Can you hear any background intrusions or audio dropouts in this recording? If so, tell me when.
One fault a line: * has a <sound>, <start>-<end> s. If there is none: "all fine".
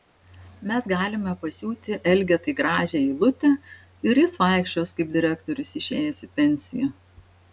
all fine